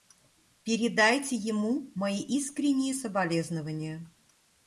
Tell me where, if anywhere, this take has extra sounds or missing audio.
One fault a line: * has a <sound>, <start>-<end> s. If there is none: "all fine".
all fine